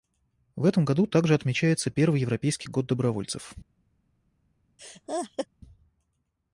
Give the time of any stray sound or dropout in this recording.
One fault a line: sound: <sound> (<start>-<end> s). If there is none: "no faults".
sound: laugh (4.8-5.5 s)